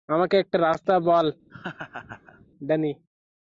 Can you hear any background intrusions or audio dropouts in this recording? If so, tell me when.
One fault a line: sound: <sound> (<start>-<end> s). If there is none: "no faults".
sound: laugh (1.5-2.5 s)